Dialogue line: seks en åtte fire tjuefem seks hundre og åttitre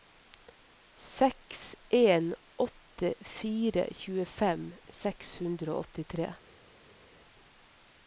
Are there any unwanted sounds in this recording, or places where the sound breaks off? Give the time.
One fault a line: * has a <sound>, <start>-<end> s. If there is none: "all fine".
all fine